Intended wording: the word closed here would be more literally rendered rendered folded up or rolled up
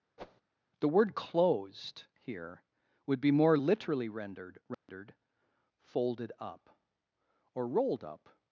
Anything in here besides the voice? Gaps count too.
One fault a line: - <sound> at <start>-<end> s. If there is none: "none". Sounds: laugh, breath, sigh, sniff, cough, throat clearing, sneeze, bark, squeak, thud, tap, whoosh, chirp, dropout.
- whoosh at 0.2-0.4 s
- dropout at 4.7-4.9 s